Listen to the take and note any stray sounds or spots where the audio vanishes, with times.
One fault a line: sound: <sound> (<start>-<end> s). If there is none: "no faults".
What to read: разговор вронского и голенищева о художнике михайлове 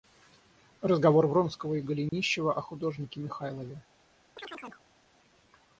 sound: dropout (2.1-2.1 s)
sound: chirp (4.4-4.8 s)